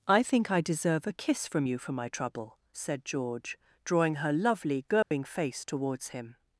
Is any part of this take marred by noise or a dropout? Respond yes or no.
yes